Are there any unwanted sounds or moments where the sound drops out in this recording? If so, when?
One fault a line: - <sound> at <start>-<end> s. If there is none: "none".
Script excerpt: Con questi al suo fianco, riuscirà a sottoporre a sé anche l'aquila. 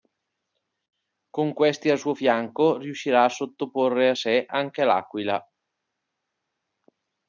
none